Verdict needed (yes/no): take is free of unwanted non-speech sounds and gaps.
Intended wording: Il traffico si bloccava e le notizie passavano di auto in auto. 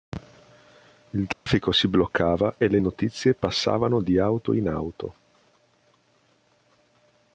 no